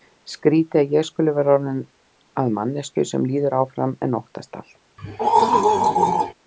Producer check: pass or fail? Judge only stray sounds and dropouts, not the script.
fail